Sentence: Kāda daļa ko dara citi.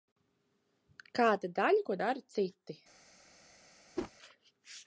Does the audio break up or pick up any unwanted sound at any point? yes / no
yes